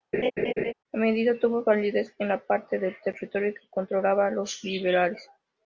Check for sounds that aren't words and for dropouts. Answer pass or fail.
fail